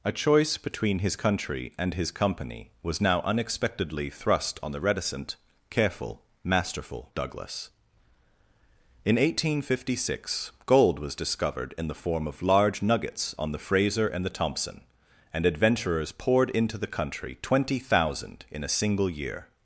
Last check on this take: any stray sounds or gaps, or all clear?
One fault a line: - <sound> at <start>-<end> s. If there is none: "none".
none